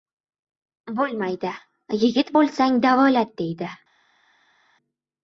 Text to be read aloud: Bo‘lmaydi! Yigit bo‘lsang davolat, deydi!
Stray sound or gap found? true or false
false